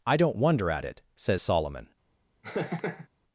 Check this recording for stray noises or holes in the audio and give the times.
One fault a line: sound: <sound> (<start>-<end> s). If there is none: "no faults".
sound: laugh (2.4-3.1 s)